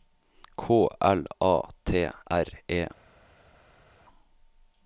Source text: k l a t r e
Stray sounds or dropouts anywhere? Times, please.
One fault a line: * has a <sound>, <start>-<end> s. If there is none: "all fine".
all fine